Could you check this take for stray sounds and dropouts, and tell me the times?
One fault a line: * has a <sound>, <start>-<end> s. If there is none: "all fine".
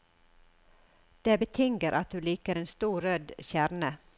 all fine